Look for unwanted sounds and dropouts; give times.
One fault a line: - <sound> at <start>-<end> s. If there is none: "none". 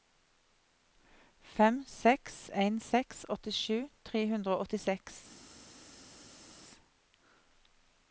none